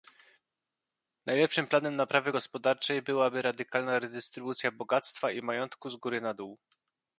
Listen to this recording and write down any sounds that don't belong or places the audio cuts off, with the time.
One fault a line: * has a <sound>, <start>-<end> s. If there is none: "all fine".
all fine